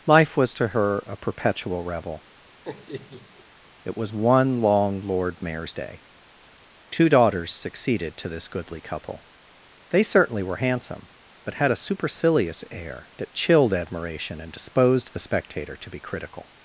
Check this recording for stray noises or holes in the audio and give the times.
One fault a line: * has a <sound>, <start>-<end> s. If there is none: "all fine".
* has a laugh, 2.6-3.4 s